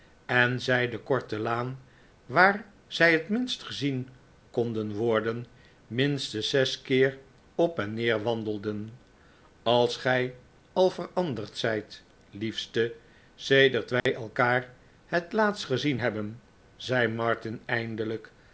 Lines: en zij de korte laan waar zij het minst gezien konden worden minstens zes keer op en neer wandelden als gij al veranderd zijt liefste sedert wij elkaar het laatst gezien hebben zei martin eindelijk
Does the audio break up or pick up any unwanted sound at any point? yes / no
yes